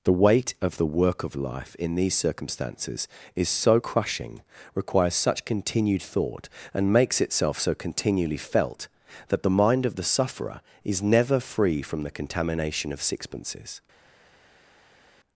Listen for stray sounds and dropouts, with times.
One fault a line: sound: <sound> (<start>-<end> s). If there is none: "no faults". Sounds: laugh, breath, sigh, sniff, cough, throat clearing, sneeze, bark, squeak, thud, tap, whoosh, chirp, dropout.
no faults